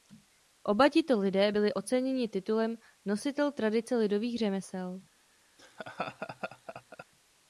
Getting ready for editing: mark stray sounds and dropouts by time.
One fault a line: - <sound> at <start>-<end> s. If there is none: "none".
- laugh at 5.6-7.1 s